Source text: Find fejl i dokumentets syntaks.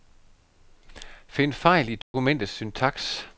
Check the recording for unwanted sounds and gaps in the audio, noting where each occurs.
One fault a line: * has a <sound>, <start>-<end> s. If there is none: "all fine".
* has a dropout, 2.0-2.1 s